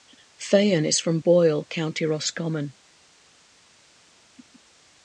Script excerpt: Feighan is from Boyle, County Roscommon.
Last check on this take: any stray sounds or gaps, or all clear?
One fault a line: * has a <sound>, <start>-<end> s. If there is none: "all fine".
all fine